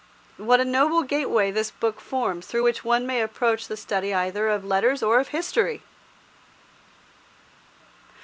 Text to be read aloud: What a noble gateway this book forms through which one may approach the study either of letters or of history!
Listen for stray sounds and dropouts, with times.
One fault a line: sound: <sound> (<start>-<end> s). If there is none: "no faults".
no faults